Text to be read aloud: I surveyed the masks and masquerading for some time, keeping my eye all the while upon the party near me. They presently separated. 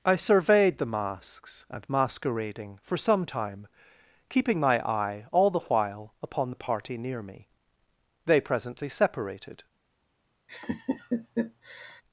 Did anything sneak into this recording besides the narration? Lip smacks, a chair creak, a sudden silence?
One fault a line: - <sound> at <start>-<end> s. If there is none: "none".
- laugh at 10.5-12.0 s